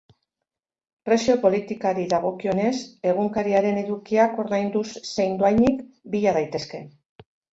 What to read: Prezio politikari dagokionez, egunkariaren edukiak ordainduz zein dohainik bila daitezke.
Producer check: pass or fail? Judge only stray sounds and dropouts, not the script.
pass